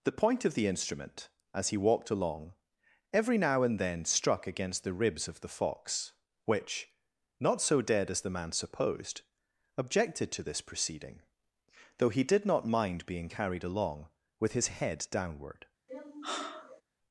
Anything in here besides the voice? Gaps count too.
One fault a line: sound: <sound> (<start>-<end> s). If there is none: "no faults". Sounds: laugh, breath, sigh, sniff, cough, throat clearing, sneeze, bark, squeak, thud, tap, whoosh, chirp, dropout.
sound: sigh (15.9-16.8 s)